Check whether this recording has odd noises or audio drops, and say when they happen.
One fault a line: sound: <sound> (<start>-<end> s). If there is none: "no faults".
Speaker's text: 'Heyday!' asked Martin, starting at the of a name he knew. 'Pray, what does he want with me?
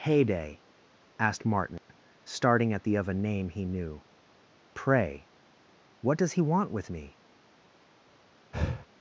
sound: dropout (1.8-1.9 s)
sound: breath (8.5-8.9 s)